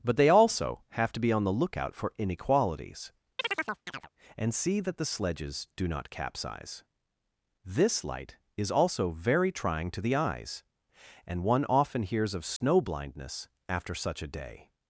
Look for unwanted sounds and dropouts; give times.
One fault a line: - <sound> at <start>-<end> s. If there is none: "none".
- chirp at 3.4-4.1 s
- dropout at 12.6-12.6 s